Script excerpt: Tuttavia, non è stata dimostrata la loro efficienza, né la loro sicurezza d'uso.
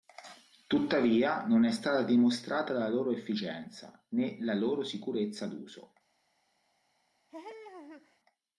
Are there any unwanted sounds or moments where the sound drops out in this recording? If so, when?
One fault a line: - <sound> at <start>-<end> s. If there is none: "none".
- laugh at 7.3-8.2 s